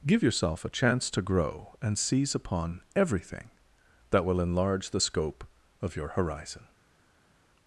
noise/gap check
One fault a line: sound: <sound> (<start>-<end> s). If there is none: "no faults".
no faults